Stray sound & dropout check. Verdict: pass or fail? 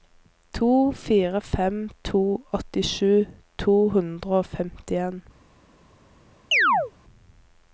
fail